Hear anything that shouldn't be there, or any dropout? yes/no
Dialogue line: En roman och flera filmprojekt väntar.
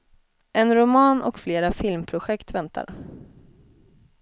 no